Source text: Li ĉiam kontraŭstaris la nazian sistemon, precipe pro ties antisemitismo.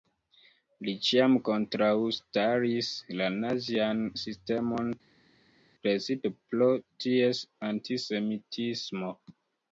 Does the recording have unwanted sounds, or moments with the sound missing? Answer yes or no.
no